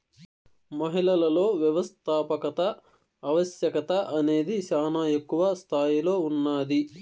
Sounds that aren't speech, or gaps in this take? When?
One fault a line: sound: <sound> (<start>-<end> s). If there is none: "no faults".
no faults